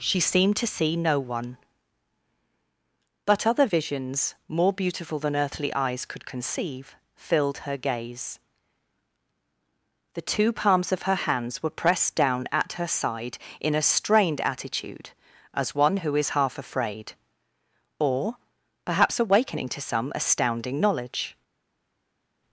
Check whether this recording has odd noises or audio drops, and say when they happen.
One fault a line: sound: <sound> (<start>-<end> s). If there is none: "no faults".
no faults